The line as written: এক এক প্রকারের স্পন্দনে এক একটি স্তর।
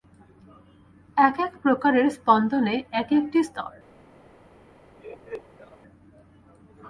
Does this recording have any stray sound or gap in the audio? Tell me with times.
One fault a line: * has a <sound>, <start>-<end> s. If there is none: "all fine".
* has a laugh, 5.0-5.8 s